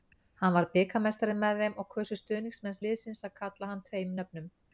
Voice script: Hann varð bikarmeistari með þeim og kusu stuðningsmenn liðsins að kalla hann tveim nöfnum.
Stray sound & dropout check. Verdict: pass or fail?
pass